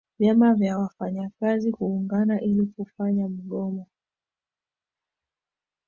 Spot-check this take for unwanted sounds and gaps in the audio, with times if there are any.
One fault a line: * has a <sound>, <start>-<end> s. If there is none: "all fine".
all fine